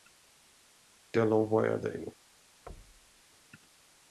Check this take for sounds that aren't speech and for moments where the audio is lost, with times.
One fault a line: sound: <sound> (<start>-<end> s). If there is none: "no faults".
sound: thud (2.7-3.2 s)